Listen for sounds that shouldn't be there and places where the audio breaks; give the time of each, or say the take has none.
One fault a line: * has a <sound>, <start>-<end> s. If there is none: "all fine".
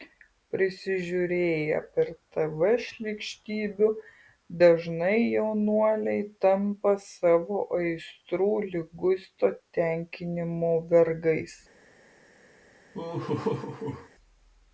* has a laugh, 12.9-14.1 s